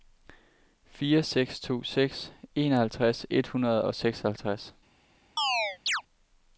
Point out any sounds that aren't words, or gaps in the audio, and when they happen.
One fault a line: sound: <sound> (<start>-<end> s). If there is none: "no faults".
sound: chirp (5.4-6.0 s)